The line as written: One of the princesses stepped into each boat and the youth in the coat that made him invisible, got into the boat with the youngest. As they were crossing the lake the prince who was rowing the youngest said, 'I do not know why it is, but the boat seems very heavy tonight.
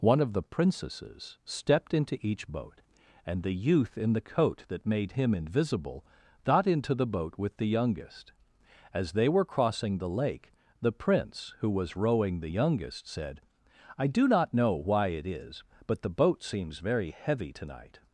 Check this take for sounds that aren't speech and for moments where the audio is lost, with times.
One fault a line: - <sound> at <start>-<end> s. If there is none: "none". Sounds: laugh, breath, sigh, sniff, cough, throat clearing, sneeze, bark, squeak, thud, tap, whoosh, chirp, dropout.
none